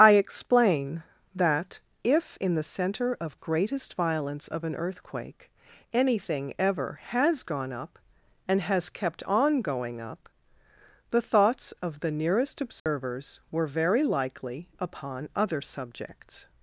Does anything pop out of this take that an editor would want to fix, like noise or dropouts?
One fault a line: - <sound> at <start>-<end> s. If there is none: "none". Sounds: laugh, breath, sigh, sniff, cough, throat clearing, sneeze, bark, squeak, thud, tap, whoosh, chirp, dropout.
- dropout at 12.8-12.9 s